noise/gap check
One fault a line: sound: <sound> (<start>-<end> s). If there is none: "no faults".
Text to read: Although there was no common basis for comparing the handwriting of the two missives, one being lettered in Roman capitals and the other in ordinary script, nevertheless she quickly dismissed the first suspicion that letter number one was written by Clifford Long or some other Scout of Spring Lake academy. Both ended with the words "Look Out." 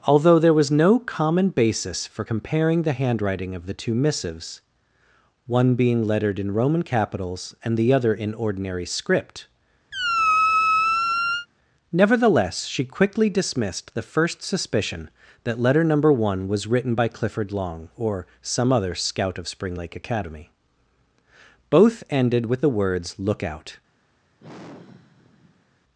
sound: squeak (9.9-11.5 s)
sound: sigh (24.4-25.8 s)